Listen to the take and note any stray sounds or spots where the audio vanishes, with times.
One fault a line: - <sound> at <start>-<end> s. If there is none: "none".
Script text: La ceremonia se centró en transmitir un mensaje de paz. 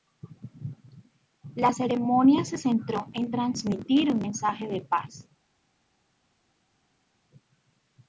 none